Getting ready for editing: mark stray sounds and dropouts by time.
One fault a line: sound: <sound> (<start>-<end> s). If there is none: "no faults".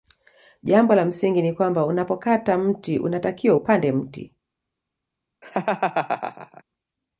sound: laugh (5.4-6.6 s)